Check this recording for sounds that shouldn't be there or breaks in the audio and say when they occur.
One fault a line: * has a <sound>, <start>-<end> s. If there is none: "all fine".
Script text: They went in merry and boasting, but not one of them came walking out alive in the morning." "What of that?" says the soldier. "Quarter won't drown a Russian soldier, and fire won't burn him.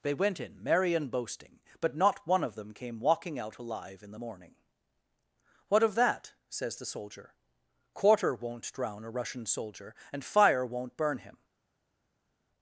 all fine